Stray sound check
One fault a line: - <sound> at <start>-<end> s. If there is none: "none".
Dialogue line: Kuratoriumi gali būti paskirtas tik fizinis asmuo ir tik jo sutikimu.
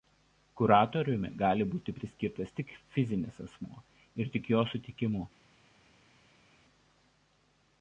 none